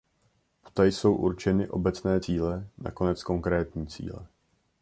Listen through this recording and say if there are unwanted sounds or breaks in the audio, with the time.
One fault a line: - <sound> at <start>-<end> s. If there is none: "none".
none